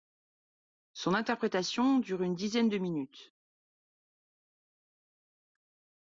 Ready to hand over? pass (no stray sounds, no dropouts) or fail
pass